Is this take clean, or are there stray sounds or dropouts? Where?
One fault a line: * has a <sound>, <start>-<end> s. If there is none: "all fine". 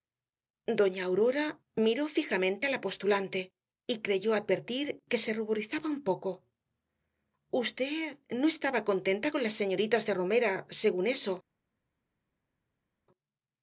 all fine